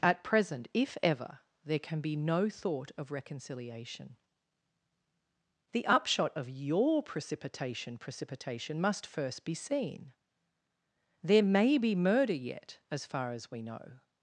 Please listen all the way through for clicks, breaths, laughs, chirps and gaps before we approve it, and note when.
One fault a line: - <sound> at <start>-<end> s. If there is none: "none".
none